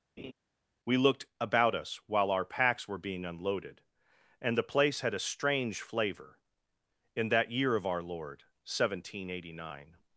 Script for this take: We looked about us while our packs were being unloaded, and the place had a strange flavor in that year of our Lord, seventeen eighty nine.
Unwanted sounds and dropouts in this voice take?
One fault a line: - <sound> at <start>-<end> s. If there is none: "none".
- laugh at 0.2-0.3 s